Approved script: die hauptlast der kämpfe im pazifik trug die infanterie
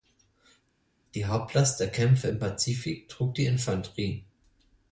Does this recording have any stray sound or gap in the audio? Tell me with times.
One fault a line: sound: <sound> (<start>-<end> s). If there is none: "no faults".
no faults